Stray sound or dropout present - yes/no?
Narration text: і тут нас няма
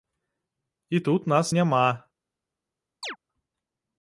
yes